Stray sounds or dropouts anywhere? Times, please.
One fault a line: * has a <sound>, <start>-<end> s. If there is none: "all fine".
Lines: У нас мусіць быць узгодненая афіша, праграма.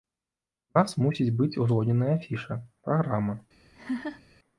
* has a laugh, 3.7-4.2 s